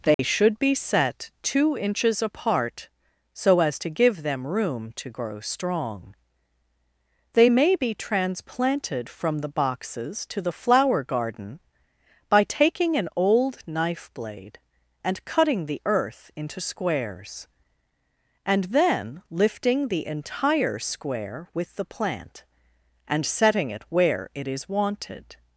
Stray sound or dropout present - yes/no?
yes